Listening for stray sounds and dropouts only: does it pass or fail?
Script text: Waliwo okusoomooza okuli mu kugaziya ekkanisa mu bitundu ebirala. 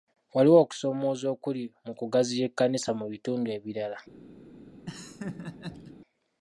fail